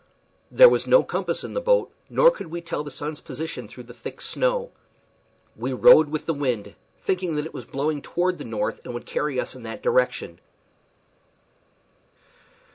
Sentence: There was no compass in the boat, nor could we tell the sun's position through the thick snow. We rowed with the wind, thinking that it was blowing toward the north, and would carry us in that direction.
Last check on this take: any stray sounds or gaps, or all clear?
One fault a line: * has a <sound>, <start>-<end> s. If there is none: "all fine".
all fine